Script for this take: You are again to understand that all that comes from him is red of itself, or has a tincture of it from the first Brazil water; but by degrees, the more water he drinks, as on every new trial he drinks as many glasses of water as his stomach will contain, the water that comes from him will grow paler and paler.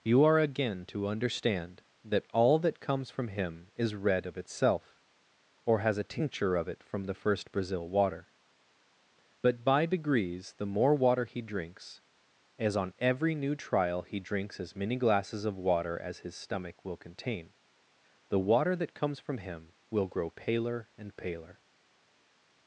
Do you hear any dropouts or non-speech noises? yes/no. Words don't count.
no